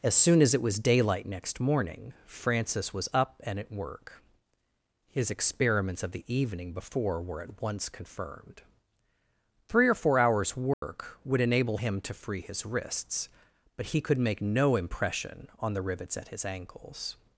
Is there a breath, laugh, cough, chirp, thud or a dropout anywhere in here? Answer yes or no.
yes